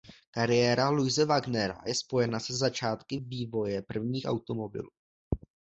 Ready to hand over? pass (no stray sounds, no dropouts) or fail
pass